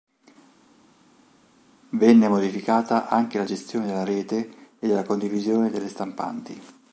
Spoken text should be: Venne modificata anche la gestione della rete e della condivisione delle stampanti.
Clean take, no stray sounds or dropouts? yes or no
yes